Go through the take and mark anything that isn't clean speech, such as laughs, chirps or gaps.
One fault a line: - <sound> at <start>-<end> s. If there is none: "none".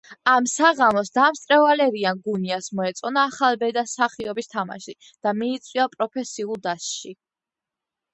none